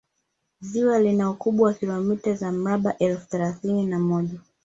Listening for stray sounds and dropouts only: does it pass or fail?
pass